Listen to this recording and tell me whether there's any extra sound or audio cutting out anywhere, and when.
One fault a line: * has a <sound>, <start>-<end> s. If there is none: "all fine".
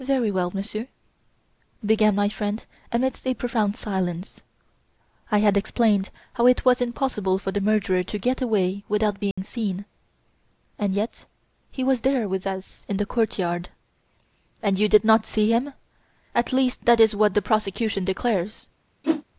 * has a dropout, 9.3-9.4 s
* has a whoosh, 19.0-19.2 s